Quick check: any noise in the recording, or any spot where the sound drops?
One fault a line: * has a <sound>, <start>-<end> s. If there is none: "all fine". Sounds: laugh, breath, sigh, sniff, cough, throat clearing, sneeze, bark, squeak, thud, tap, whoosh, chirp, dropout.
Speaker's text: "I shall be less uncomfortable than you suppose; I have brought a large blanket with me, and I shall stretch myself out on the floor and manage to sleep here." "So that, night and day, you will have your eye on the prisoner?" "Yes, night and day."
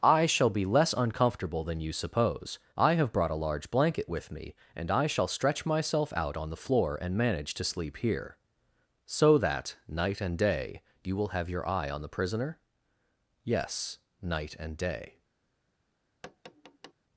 * has a tap, 16.2-16.9 s